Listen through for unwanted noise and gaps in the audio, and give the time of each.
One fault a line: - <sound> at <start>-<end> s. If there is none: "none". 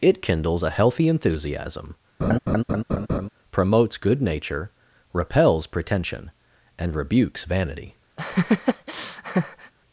- laugh at 2.2-3.3 s
- laugh at 8.2-9.7 s